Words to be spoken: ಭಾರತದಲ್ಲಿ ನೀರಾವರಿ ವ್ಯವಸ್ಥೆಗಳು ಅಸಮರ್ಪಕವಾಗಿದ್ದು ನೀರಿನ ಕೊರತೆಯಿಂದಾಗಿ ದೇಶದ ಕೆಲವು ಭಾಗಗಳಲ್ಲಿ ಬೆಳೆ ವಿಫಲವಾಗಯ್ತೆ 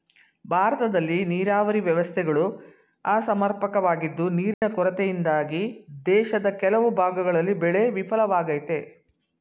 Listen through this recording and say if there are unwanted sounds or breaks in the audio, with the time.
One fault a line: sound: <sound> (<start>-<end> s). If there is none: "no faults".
sound: dropout (4.5-4.6 s)